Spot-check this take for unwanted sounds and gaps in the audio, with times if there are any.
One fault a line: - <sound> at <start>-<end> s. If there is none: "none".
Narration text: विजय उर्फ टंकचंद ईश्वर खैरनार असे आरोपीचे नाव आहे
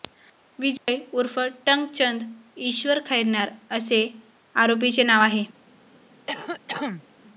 - dropout at 0.8-0.9 s
- cough at 6.3-7.1 s